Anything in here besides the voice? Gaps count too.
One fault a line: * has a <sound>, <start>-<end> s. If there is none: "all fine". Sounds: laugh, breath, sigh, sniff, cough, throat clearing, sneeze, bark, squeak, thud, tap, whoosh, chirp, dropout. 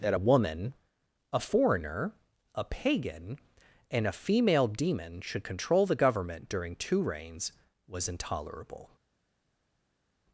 all fine